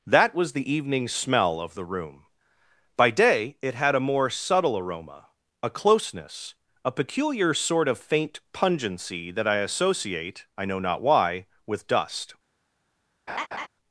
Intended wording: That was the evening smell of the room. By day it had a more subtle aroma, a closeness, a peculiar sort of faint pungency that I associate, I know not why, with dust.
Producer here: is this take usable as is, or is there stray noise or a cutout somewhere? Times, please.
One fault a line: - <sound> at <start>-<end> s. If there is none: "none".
- laugh at 13.3-13.7 s